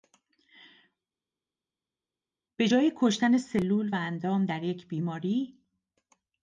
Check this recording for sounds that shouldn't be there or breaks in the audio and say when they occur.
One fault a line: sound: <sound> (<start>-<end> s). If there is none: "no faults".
no faults